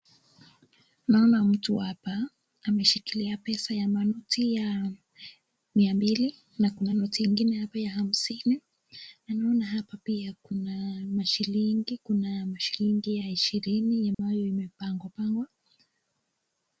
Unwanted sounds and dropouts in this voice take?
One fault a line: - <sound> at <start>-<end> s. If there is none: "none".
- dropout at 14.1-14.2 s